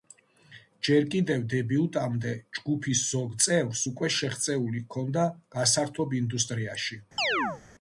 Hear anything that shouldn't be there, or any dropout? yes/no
yes